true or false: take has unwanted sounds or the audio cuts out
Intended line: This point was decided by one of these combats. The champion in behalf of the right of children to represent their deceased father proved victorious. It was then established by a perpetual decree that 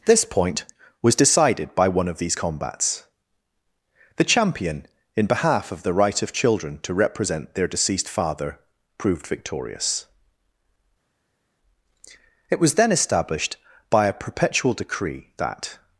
false